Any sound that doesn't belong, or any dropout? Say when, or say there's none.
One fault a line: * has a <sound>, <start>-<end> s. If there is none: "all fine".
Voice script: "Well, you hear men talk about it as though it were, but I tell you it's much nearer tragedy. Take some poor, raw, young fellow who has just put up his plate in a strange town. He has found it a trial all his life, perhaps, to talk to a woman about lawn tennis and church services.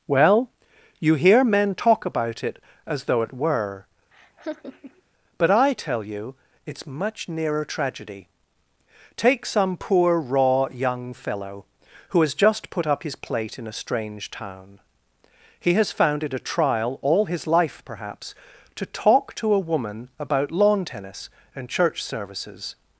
* has a laugh, 4.1-5.0 s